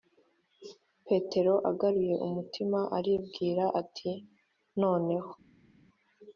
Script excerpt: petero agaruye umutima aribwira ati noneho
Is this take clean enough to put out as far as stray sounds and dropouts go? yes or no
yes